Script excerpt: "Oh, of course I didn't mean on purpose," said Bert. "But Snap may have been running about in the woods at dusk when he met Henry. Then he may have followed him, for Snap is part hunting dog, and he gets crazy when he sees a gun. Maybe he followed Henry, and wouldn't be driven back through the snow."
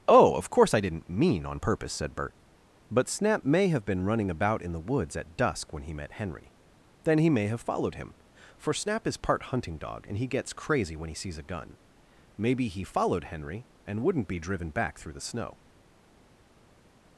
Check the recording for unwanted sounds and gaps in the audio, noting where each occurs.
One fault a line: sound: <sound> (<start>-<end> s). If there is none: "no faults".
no faults